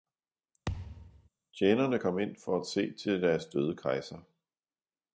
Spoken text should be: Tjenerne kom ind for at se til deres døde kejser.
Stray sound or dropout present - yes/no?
yes